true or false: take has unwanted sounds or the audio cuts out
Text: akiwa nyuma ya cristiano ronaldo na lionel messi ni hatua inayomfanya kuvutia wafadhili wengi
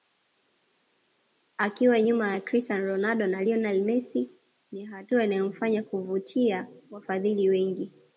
false